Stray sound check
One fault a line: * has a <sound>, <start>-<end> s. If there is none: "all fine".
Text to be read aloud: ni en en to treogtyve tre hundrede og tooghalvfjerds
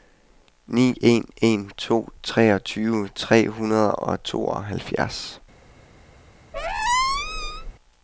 * has a squeak, 6.5-7.7 s